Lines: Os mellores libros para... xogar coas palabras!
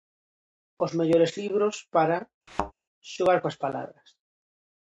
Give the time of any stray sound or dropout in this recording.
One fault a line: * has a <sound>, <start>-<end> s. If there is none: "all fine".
* has a thud, 2.5-2.7 s